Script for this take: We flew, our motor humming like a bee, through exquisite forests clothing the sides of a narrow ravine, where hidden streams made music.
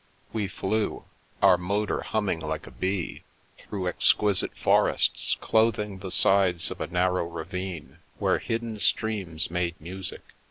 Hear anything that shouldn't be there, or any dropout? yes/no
no